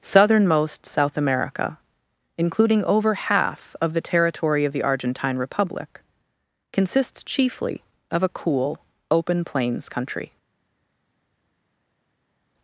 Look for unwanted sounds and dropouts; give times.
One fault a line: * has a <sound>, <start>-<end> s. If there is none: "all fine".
all fine